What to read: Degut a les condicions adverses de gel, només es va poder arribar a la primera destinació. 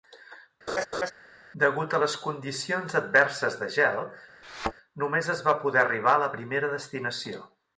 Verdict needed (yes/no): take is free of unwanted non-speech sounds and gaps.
no